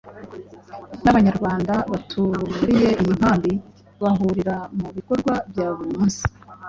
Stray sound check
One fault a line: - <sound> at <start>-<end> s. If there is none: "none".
none